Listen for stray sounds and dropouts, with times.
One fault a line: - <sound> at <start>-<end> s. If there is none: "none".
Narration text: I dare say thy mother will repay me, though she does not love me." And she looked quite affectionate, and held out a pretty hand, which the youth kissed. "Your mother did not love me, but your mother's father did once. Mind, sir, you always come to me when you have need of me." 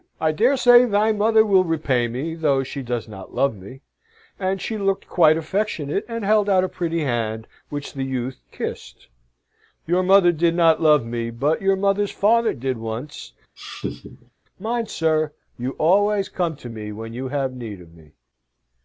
- laugh at 13.6-14.3 s